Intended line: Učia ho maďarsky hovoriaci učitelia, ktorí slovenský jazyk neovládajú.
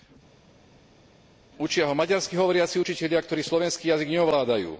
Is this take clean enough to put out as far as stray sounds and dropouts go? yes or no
yes